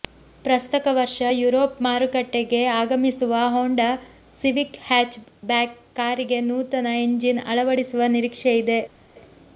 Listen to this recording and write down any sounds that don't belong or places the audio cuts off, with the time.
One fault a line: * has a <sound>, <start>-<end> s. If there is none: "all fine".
all fine